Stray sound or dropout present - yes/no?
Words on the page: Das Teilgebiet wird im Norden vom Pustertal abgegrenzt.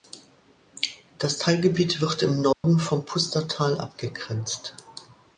yes